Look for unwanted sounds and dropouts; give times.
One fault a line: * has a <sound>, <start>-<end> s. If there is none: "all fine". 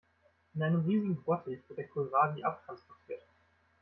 all fine